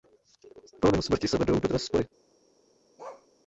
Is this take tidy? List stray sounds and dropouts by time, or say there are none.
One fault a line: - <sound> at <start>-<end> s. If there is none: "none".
- bark at 3.0-3.3 s